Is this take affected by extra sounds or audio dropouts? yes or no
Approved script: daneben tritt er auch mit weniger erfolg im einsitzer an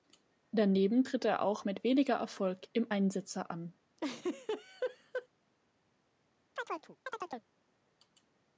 yes